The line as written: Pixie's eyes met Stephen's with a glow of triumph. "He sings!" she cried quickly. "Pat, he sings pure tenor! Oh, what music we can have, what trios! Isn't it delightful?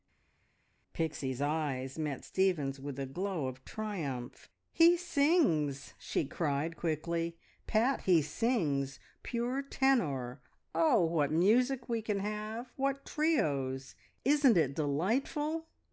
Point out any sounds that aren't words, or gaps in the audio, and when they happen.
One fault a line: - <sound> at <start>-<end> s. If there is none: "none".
none